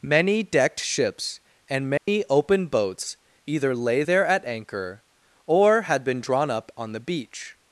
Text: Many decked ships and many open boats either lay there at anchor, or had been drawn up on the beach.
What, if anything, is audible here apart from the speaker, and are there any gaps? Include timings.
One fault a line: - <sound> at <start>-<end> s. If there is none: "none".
- dropout at 2.0-2.1 s